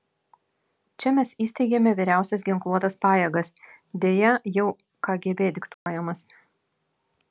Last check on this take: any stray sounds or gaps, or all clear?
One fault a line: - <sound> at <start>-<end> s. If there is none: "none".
- dropout at 5.7-5.9 s